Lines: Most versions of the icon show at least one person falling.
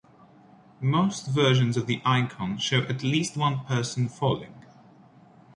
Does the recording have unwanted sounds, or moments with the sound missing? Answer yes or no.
no